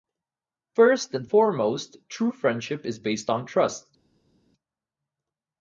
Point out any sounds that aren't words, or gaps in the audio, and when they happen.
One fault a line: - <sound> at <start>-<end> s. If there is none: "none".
none